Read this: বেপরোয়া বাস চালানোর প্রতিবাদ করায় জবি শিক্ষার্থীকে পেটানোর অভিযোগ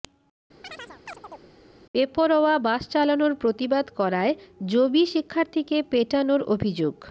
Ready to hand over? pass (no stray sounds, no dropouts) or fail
fail